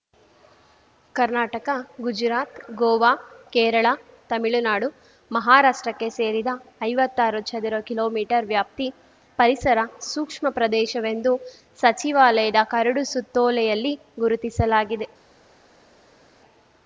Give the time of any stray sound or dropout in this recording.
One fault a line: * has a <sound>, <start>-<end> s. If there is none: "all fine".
all fine